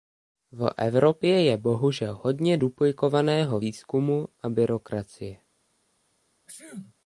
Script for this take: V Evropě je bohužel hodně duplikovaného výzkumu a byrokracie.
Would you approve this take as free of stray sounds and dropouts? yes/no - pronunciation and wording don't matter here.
no